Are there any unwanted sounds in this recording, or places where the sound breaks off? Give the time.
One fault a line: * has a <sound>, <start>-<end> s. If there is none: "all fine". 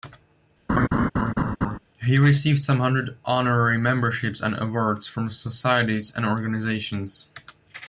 * has a laugh, 0.7-1.8 s